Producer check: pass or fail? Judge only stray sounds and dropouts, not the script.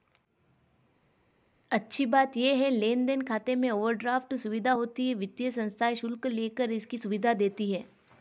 pass